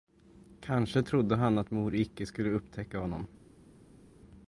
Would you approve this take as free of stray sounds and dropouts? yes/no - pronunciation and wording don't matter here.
yes